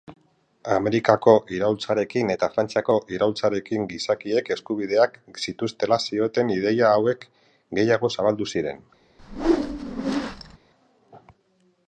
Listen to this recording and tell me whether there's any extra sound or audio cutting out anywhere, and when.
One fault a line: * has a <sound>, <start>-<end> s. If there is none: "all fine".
* has a whoosh, 9.2-10.6 s